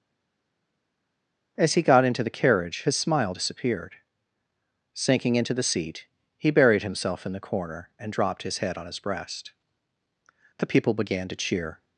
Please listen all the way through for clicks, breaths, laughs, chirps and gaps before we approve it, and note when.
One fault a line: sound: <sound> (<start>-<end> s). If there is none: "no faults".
no faults